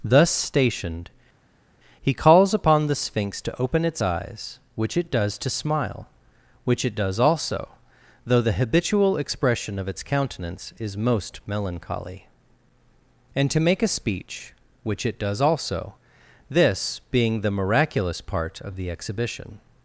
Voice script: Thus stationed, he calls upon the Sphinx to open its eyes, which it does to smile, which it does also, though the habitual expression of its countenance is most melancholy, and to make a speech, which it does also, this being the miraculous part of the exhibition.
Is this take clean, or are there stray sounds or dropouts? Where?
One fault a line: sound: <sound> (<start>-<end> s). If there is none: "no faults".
no faults